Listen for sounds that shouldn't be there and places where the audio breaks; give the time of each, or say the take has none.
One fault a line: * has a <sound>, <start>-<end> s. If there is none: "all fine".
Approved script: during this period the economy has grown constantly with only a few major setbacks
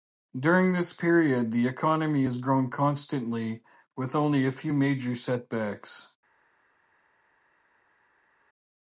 all fine